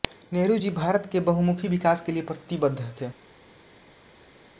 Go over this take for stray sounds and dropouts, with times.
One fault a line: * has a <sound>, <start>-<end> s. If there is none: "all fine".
all fine